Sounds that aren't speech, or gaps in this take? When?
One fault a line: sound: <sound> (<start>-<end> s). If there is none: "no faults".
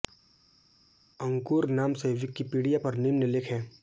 no faults